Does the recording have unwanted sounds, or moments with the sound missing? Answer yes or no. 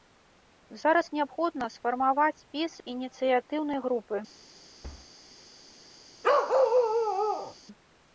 yes